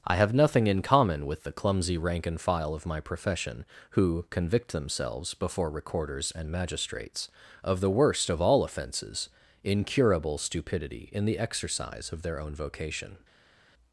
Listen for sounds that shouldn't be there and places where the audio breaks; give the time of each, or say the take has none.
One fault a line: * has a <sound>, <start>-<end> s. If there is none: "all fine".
all fine